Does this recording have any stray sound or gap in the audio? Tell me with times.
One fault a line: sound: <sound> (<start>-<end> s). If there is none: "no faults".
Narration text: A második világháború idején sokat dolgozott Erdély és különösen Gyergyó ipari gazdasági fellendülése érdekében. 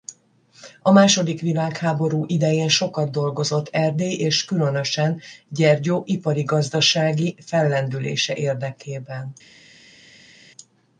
no faults